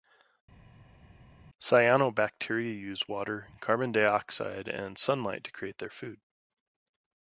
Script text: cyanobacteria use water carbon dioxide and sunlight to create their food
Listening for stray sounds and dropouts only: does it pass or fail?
pass